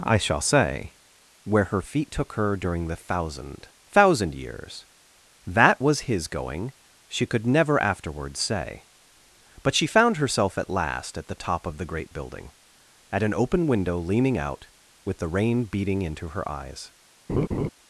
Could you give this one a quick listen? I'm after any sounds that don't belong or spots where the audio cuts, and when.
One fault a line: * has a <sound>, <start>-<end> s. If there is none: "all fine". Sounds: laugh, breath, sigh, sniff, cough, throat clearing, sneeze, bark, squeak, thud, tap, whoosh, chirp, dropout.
* has a laugh, 17.3-17.7 s